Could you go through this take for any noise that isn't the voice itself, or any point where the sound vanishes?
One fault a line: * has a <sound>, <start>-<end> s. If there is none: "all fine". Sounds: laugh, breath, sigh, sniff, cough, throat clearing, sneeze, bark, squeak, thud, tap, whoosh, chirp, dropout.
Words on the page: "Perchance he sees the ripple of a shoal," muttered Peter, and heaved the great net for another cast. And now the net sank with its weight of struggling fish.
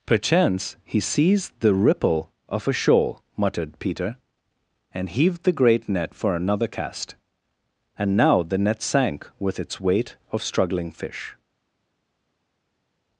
all fine